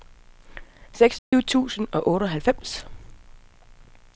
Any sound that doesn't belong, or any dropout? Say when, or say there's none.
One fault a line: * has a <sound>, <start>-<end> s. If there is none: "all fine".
* has a dropout, 1.2-1.3 s